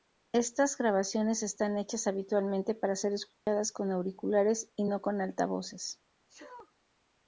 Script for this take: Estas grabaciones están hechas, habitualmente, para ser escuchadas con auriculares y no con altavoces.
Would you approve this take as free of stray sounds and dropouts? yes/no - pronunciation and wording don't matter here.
no